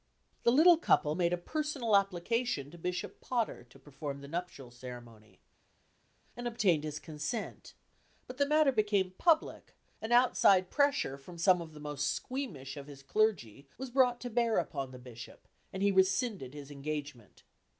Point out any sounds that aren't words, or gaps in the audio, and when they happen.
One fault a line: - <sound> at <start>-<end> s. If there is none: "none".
none